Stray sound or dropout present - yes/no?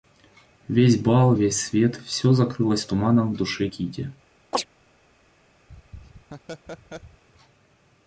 yes